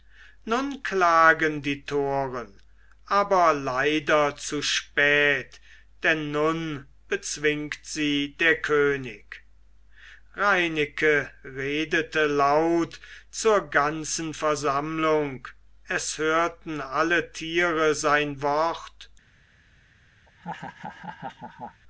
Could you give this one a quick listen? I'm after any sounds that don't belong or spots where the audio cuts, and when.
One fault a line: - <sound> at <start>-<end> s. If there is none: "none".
- laugh at 20.3-21.8 s